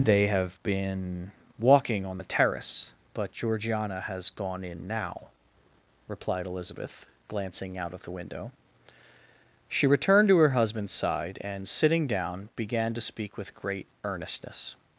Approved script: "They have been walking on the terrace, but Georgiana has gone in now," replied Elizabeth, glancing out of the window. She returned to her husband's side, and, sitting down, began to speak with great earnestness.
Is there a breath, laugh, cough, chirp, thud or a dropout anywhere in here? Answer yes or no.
no